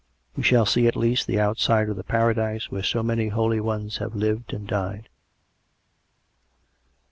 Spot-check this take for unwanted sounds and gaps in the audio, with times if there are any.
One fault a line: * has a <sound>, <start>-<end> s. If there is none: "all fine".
all fine